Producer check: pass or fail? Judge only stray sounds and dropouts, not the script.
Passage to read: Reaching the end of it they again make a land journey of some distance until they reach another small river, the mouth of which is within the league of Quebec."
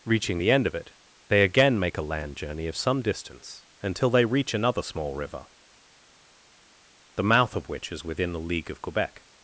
pass